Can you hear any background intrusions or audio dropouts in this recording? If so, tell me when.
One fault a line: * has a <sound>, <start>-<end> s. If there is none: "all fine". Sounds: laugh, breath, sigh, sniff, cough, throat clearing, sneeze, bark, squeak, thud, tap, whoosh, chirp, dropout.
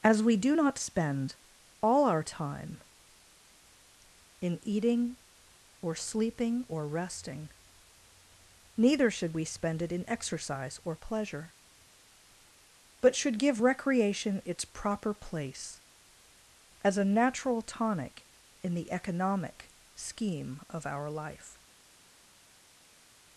all fine